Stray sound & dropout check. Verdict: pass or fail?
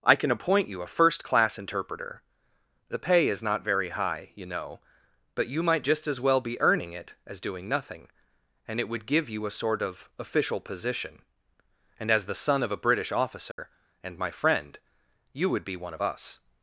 fail